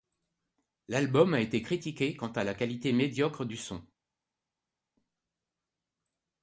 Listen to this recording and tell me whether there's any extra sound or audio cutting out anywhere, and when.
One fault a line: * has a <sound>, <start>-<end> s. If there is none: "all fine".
all fine